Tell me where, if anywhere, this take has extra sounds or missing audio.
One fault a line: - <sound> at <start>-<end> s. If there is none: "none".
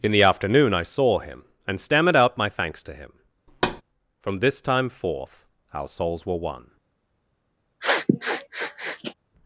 - thud at 3.5-3.8 s
- sniff at 7.8-9.1 s